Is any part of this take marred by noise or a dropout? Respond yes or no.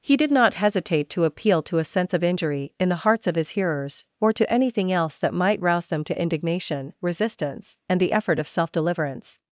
no